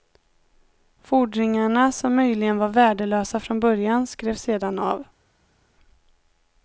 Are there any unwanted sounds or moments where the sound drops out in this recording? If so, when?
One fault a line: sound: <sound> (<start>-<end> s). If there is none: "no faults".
no faults